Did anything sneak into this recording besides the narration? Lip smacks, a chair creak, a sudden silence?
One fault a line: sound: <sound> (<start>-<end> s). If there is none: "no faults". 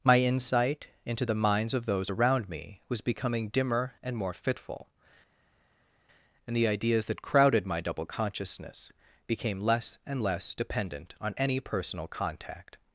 no faults